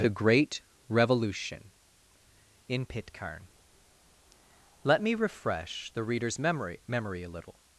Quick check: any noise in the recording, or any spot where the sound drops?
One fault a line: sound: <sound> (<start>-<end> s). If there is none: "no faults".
no faults